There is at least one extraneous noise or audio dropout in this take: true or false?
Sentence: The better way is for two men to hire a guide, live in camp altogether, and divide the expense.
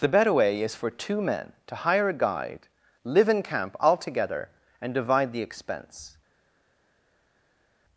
false